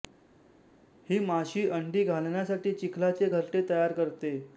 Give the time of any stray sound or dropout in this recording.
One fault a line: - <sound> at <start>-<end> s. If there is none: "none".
none